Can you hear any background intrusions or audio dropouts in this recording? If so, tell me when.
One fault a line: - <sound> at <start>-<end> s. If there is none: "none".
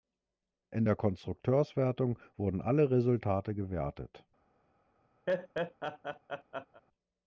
- laugh at 5.3-6.8 s